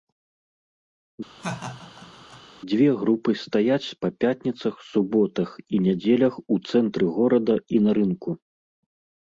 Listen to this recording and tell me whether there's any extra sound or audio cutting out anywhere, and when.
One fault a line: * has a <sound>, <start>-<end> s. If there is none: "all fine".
* has a laugh, 1.4-2.4 s